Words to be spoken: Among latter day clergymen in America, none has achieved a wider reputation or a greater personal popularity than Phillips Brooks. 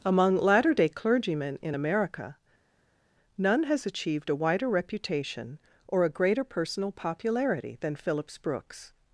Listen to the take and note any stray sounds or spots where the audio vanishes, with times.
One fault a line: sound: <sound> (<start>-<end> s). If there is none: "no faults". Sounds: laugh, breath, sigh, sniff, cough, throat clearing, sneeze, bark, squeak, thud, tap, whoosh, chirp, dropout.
no faults